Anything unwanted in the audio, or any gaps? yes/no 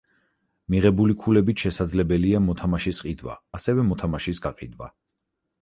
no